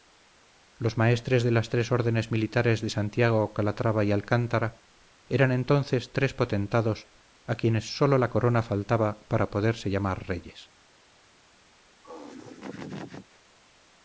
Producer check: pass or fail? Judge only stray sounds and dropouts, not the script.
fail